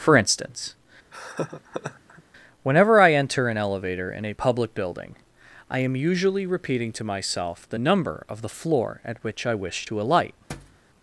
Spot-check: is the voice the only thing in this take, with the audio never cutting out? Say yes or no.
no